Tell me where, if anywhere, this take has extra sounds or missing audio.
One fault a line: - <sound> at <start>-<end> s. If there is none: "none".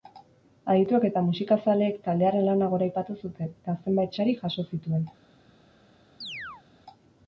- chirp at 6.2-6.6 s